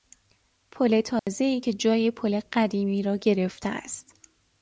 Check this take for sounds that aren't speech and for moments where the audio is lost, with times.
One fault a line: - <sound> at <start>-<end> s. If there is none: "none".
- dropout at 1.2-1.3 s